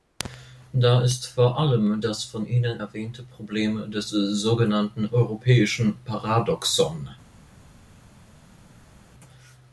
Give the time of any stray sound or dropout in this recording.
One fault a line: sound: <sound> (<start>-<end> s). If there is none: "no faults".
no faults